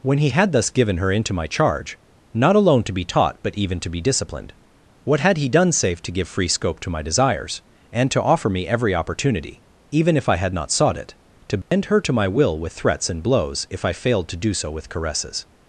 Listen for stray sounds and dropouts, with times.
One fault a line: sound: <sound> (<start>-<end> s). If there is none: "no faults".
sound: dropout (11.6-11.7 s)